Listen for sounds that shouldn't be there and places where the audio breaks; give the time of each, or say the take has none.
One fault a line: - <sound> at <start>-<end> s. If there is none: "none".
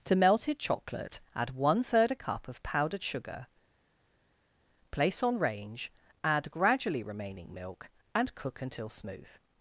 none